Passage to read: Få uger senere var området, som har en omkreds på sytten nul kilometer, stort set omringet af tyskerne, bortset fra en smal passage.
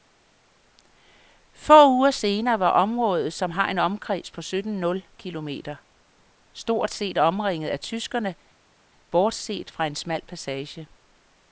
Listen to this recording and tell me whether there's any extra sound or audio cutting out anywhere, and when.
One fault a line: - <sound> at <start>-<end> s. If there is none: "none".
none